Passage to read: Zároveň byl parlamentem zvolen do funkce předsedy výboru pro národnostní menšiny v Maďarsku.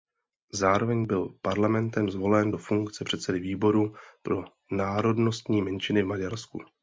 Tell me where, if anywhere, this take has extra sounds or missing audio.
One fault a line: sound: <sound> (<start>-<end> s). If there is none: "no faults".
no faults